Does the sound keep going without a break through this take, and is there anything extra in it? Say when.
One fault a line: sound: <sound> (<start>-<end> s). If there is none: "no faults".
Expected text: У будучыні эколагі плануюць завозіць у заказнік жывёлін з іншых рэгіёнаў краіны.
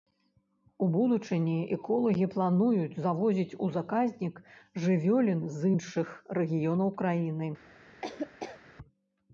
sound: laugh (8.0-8.6 s)